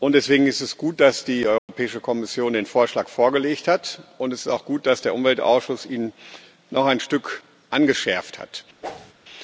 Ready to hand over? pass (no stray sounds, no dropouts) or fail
fail